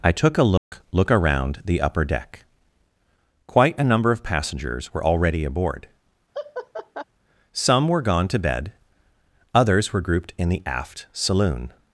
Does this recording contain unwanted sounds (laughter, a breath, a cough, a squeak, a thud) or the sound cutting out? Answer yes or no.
yes